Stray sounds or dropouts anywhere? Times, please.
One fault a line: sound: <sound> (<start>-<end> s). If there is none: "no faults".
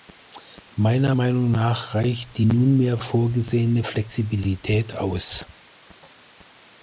no faults